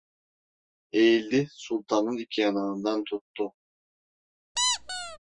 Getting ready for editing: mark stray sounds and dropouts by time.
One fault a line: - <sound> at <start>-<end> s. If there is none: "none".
- squeak at 4.6-5.2 s